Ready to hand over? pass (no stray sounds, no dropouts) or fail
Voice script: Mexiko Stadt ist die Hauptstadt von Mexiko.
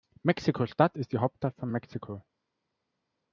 pass